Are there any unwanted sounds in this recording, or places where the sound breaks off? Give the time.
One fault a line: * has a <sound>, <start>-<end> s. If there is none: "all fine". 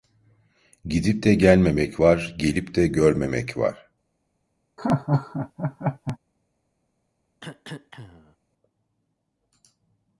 * has a laugh, 4.8-6.2 s
* has a cough, 7.4-8.4 s